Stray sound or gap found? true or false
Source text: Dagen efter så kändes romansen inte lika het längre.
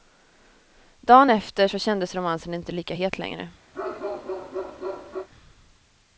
true